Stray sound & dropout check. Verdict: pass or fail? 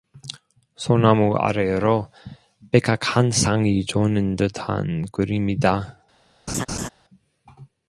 fail